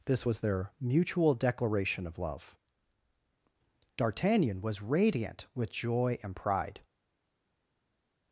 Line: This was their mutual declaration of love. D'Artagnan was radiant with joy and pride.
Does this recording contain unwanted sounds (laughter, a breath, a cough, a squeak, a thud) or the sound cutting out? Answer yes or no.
no